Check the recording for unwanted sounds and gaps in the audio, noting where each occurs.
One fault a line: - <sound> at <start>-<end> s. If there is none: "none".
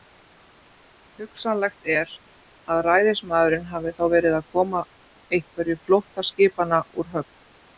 none